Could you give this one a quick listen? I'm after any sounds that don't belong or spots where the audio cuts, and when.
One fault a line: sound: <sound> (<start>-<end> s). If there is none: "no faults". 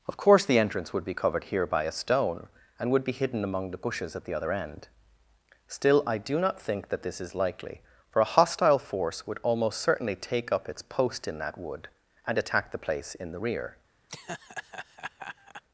sound: laugh (14.1-15.6 s)